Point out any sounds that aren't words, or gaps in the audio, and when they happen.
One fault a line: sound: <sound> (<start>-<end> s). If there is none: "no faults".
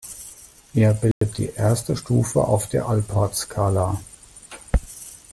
sound: dropout (1.1-1.2 s)